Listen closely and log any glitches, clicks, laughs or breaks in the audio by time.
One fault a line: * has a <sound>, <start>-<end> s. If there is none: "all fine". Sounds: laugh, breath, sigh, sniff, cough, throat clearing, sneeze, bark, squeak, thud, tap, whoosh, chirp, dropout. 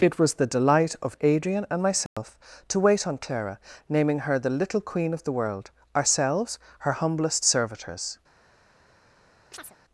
* has a dropout, 2.1-2.2 s
* has a chirp, 9.5-9.8 s